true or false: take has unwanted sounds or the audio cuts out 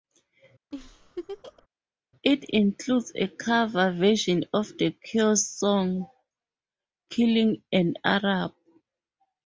true